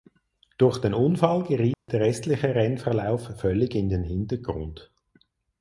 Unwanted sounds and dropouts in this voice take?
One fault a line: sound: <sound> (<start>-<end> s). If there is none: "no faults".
sound: dropout (1.7-1.9 s)